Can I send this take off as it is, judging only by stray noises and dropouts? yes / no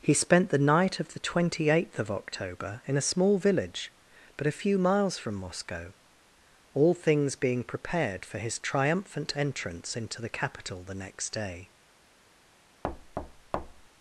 no